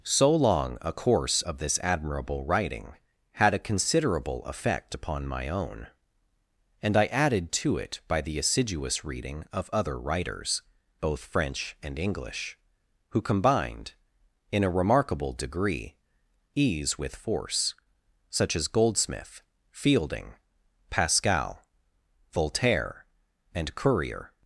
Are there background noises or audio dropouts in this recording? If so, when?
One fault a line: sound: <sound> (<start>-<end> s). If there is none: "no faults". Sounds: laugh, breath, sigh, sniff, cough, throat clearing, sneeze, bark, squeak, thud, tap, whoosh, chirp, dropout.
no faults